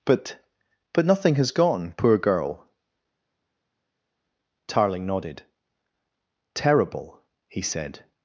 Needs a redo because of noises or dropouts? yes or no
no